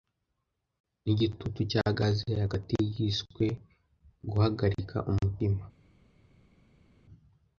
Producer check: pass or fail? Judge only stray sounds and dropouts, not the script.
pass